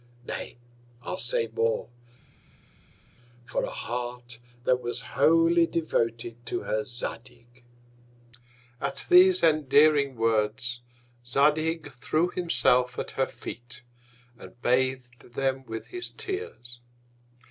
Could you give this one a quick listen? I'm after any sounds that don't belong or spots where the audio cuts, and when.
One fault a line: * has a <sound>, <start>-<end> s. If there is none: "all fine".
all fine